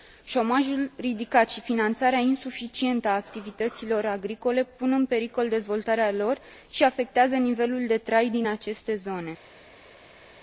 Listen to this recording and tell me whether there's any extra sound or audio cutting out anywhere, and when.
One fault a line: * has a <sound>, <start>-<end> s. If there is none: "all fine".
all fine